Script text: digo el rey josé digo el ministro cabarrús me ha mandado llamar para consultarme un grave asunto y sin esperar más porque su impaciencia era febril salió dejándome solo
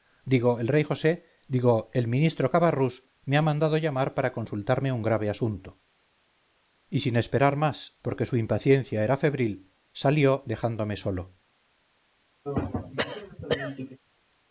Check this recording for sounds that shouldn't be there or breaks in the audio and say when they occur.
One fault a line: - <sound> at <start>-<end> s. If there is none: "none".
- throat clearing at 12.4-14.0 s